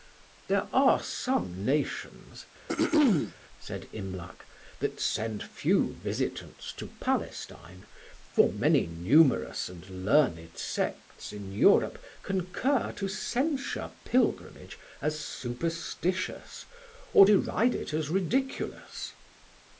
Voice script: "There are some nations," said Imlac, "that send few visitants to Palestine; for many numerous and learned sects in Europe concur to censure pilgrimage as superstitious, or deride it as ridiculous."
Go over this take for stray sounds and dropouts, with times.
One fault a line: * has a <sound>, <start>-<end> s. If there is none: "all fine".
* has a throat clearing, 2.7-3.3 s